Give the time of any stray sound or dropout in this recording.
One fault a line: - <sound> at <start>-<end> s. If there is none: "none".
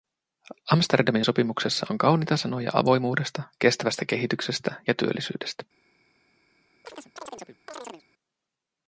- chirp at 6.8-8.0 s